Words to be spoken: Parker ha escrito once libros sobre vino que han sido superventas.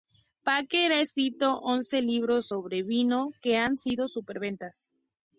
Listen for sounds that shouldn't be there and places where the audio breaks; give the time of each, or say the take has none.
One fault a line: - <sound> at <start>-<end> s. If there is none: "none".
none